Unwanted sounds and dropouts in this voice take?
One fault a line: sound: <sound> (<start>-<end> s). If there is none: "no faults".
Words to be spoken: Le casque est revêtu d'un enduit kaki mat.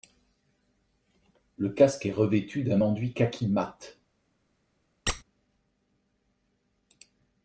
sound: squeak (5.1-5.2 s)